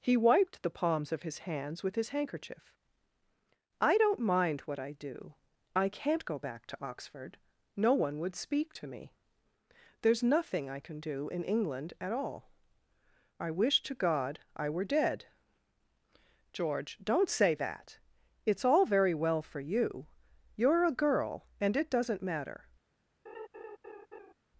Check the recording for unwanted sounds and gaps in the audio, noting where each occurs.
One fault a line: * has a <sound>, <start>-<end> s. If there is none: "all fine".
* has a laugh, 23.3-24.3 s